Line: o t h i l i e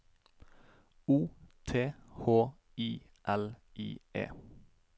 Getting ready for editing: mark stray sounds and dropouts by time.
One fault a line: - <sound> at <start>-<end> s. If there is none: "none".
none